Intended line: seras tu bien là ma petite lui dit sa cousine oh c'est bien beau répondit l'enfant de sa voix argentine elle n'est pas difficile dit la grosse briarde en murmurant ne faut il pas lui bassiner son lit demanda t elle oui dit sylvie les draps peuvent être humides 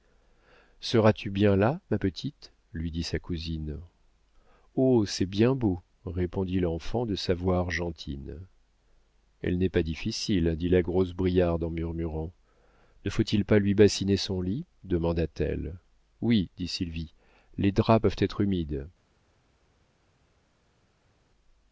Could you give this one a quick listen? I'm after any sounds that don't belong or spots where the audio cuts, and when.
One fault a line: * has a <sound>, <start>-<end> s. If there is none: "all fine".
all fine